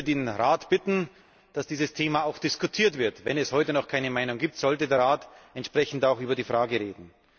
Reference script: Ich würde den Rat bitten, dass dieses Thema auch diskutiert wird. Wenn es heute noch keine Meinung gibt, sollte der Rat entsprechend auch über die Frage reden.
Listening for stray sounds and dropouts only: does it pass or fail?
pass